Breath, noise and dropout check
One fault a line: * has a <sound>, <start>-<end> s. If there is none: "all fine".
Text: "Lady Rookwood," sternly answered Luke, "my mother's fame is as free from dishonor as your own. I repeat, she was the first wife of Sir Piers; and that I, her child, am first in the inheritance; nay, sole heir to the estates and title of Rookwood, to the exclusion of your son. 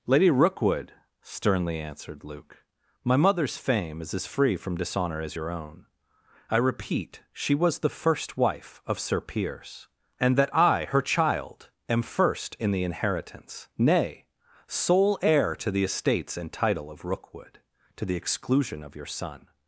all fine